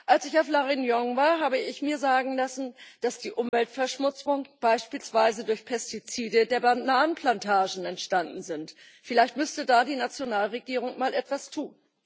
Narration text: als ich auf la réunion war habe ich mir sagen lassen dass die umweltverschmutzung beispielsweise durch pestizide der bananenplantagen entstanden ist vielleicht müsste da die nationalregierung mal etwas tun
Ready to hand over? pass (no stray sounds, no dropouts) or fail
fail